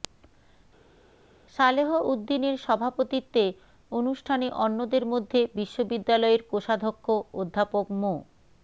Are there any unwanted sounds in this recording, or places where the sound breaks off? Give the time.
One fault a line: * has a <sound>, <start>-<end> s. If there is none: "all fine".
all fine